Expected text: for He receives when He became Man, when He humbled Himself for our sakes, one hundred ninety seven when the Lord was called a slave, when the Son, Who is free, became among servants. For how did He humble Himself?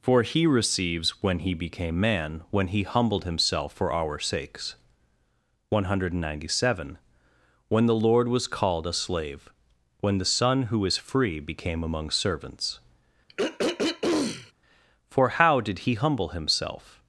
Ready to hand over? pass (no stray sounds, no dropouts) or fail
fail